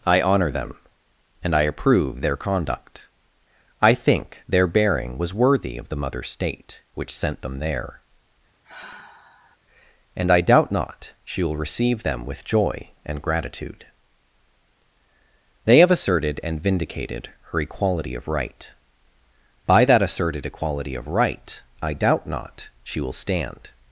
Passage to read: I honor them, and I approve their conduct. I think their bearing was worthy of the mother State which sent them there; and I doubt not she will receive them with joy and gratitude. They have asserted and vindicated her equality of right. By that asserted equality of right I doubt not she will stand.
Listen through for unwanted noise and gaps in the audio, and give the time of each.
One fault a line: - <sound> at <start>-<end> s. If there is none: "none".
- sigh at 8.6-9.6 s